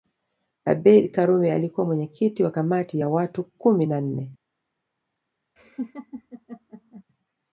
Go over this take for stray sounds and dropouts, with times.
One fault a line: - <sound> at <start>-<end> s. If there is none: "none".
- laugh at 5.6-7.0 s